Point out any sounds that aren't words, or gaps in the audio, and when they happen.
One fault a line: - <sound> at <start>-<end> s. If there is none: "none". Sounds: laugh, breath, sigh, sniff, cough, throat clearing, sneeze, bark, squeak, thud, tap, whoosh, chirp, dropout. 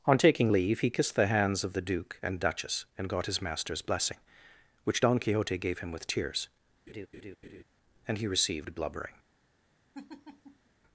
- laugh at 6.9-7.6 s
- laugh at 9.9-10.7 s